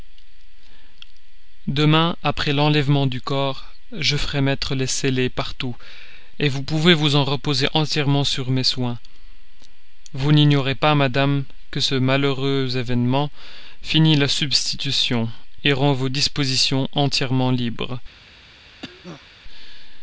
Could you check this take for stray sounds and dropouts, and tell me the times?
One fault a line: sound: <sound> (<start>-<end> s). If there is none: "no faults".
sound: cough (18.8-19.3 s)